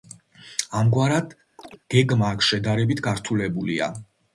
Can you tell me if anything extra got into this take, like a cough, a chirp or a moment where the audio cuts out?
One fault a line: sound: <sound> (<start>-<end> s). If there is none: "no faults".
sound: chirp (1.6-1.8 s)